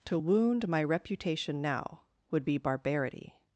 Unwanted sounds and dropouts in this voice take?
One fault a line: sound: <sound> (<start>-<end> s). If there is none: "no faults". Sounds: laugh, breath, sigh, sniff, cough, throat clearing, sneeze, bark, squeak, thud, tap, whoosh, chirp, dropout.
no faults